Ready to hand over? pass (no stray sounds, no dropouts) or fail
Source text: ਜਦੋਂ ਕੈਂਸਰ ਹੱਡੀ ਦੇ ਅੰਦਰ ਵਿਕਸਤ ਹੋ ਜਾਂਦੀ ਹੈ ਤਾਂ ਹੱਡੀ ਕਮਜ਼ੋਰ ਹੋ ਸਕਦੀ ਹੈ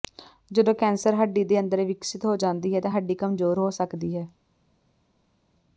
pass